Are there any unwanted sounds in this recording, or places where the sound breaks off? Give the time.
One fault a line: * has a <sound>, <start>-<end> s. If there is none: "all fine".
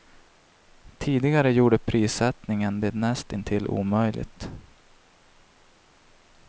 all fine